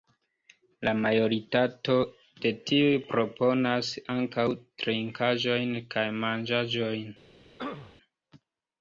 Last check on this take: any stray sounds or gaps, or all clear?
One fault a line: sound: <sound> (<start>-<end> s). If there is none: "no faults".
sound: throat clearing (7.6-8.0 s)